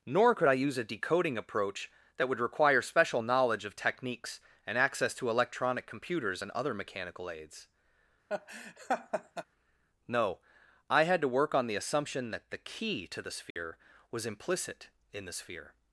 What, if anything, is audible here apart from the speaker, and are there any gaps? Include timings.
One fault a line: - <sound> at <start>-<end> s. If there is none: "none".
- laugh at 8.3-9.4 s
- dropout at 13.5-13.6 s